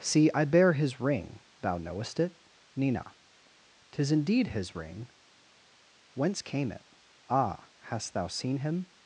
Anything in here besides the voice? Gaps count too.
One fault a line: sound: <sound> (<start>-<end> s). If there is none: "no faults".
no faults